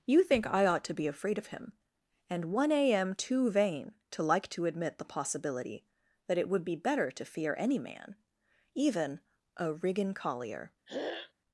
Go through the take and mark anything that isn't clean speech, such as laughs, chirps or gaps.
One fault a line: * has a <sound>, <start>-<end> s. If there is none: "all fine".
* has a throat clearing, 10.9-11.3 s